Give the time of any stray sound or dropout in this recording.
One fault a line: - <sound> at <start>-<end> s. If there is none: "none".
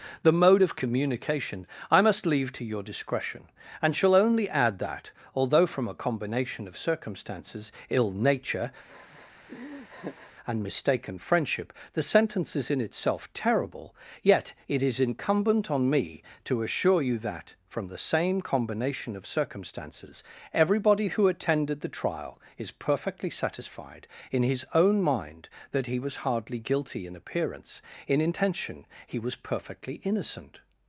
- laugh at 8.9-10.3 s